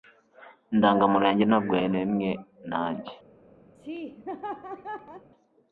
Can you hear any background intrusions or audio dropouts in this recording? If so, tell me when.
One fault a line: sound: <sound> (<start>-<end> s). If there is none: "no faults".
sound: laugh (3.7-5.3 s)